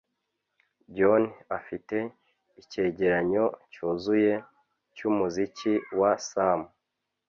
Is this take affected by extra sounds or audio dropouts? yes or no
no